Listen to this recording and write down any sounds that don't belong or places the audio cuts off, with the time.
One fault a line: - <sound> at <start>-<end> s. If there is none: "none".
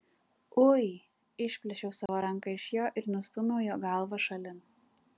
- dropout at 2.1-2.1 s